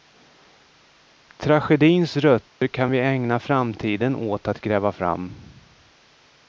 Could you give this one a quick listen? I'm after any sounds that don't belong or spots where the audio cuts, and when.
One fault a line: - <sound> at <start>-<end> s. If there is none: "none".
- dropout at 2.5-2.6 s